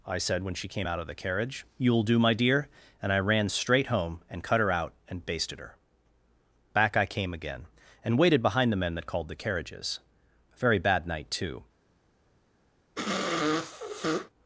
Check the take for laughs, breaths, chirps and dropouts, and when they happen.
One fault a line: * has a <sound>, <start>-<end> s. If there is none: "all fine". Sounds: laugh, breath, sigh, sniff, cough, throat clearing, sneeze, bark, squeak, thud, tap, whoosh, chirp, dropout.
* has a sniff, 13.0-14.3 s